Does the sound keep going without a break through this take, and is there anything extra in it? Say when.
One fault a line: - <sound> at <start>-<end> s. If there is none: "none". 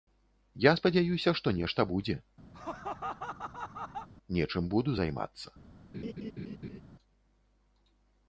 - laugh at 2.5-4.1 s
- laugh at 5.9-6.8 s